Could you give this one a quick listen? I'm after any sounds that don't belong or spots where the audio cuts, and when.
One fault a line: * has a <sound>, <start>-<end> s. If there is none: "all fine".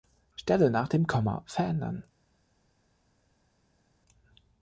all fine